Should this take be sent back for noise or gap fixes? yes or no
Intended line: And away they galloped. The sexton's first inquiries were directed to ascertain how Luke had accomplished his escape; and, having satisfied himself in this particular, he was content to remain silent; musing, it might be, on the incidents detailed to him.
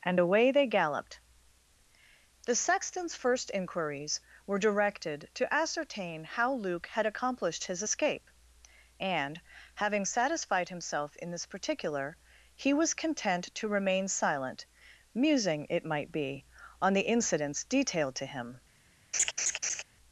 yes